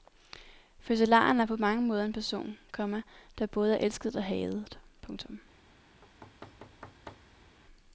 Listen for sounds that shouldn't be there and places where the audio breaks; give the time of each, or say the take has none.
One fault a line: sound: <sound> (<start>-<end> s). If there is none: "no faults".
sound: thud (6.0-7.6 s)